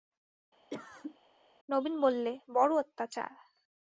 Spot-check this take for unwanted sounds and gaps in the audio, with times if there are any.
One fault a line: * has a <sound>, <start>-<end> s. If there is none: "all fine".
* has a cough, 0.7-1.2 s